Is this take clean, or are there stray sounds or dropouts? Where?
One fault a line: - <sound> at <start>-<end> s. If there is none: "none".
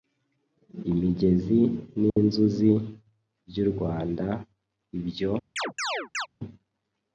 - dropout at 2.1-2.2 s
- chirp at 5.6-6.3 s